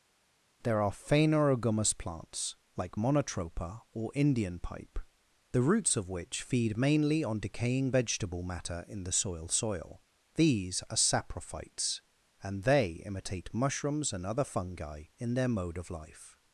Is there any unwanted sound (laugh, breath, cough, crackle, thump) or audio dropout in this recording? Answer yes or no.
no